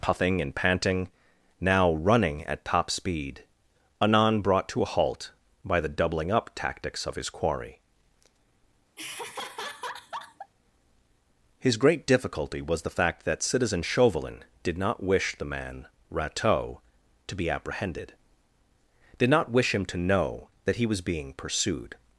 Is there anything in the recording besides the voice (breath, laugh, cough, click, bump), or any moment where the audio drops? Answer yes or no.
yes